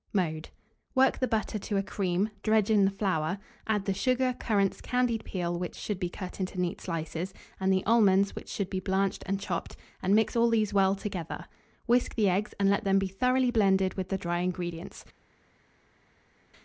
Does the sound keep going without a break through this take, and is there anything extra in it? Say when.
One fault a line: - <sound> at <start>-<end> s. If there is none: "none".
none